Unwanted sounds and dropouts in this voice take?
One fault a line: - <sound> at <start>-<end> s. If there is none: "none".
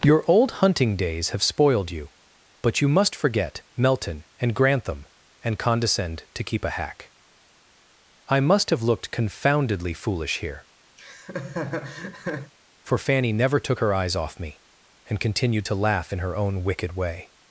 - laugh at 11.0-12.5 s